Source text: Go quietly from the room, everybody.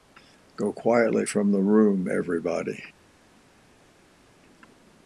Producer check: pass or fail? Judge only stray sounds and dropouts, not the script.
pass